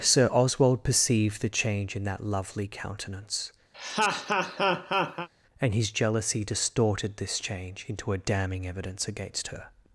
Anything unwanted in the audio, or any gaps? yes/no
yes